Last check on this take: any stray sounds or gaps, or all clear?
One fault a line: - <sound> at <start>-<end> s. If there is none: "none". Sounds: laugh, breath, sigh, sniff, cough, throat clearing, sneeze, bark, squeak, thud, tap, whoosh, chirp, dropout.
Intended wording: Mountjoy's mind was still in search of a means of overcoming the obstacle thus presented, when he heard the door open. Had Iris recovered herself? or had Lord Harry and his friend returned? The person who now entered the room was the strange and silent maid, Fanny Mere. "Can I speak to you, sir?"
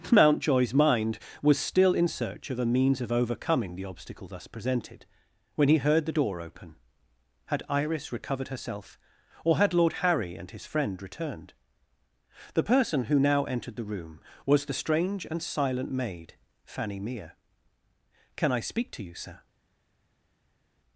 none